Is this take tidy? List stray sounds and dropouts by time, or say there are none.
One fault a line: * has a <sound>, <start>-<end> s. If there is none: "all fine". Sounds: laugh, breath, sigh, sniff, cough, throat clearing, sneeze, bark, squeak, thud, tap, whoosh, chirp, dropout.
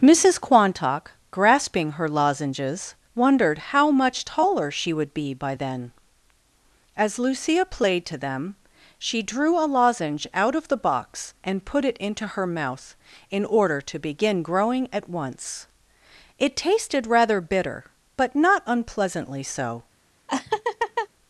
* has a laugh, 20.3-21.1 s